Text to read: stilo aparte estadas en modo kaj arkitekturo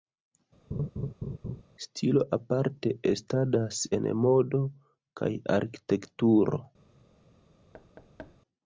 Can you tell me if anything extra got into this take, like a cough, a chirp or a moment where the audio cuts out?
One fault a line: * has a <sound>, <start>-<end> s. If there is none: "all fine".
* has a laugh, 0.7-1.6 s
* has a thud, 7.7-8.4 s